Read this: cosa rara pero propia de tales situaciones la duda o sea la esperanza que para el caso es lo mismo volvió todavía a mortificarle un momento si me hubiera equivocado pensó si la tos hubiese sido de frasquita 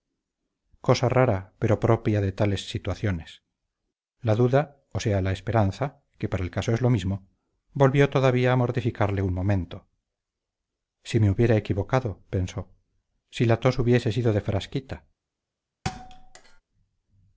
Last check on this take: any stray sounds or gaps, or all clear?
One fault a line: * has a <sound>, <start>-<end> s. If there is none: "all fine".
* has a thud, 15.8-16.6 s